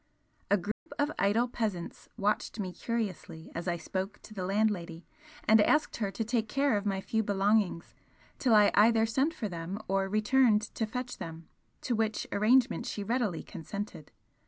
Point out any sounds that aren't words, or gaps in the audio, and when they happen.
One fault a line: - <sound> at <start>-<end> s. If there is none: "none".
- dropout at 0.7-0.9 s